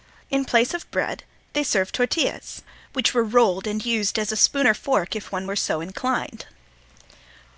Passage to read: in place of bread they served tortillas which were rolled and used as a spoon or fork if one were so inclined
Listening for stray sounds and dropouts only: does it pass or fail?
pass